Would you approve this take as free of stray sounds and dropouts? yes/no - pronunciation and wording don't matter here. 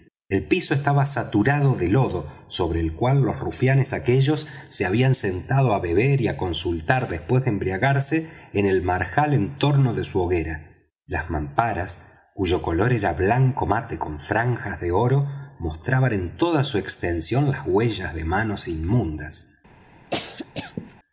no